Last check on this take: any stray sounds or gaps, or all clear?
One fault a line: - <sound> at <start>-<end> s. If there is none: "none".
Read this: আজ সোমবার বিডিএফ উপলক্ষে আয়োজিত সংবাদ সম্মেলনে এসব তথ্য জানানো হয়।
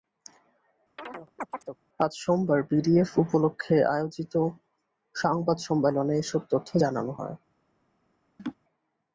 - chirp at 1.0-1.8 s
- laugh at 8.4-8.6 s